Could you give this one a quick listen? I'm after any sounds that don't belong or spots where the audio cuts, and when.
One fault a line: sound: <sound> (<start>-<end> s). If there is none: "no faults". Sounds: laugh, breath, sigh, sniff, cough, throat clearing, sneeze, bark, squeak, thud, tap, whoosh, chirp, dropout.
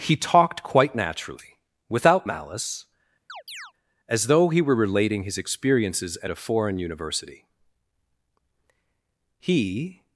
sound: chirp (3.3-3.7 s)